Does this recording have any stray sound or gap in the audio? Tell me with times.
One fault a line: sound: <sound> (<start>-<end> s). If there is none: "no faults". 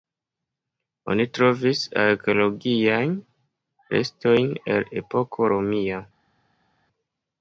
no faults